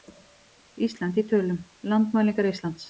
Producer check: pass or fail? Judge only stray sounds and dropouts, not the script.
pass